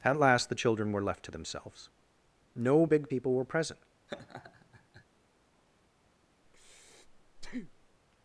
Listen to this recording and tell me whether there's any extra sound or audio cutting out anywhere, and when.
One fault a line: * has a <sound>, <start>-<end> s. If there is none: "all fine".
* has a laugh, 4.1-5.0 s
* has a breath, 6.4-8.0 s